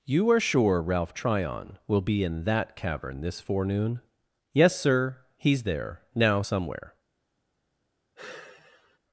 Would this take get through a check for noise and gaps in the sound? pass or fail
fail